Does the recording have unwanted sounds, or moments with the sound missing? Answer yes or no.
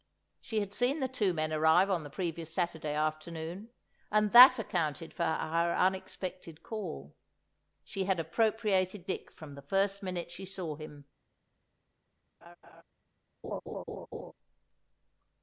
yes